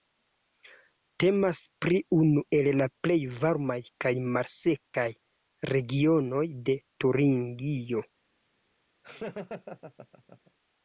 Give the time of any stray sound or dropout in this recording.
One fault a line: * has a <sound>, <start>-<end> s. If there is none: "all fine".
* has a dropout, 4.9-4.9 s
* has a laugh, 9.0-10.5 s